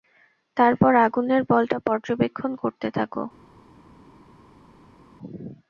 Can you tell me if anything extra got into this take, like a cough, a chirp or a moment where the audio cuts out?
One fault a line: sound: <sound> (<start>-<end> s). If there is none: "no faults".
no faults